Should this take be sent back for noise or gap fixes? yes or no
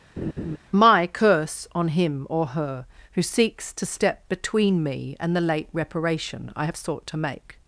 yes